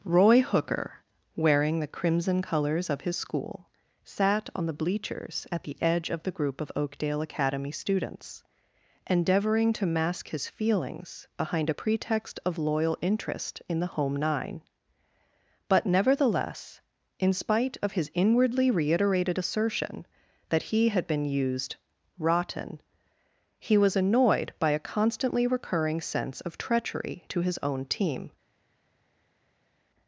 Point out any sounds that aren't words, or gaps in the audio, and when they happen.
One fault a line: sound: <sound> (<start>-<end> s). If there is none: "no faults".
no faults